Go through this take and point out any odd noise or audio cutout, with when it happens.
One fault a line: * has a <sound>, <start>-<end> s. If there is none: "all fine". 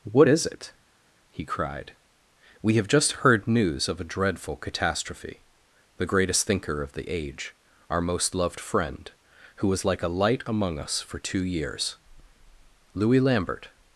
all fine